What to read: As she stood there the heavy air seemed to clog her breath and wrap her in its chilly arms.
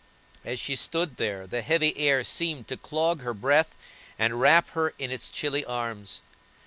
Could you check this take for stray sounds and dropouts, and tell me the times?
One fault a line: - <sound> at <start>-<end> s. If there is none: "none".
none